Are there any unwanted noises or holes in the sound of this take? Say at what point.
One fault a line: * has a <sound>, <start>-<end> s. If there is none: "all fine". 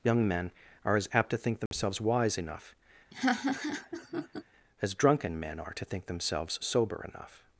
* has a dropout, 1.7-1.7 s
* has a laugh, 3.1-4.4 s